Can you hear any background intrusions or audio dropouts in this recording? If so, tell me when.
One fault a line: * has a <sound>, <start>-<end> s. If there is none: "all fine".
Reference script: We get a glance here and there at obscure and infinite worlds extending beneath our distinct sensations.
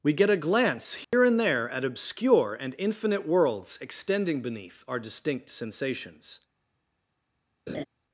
* has a dropout, 1.0-1.1 s
* has a laugh, 7.7-7.8 s